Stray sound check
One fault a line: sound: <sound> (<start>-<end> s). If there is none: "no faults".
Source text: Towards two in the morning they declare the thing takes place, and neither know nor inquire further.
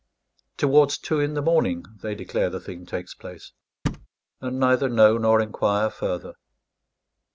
sound: thud (3.9-4.1 s)